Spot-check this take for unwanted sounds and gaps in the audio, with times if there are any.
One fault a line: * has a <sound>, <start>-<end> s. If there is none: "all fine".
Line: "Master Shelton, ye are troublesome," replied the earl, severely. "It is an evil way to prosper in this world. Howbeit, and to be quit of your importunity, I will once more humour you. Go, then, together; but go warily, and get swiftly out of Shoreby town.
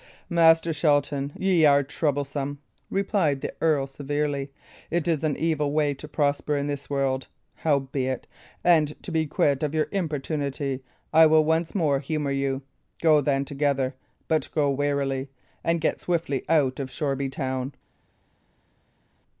all fine